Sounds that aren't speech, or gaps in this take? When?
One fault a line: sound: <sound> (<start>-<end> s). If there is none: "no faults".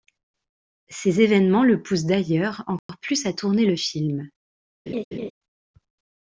sound: dropout (2.8-2.9 s)
sound: laugh (4.9-5.3 s)